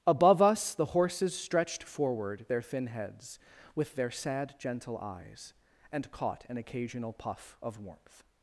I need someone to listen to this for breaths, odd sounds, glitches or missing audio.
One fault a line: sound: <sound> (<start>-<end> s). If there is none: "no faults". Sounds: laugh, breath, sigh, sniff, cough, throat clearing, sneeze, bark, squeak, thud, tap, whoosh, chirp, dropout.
no faults